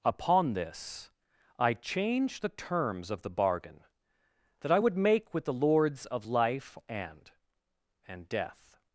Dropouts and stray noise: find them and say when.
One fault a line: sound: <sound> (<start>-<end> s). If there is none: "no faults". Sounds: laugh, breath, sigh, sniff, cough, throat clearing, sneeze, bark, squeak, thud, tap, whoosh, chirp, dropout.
no faults